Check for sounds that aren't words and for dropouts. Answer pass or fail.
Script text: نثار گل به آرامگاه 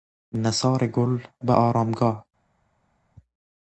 pass